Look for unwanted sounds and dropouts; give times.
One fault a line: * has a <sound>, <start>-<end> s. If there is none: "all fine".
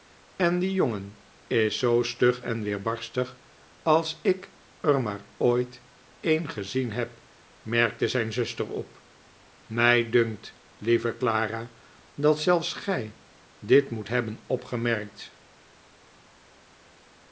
all fine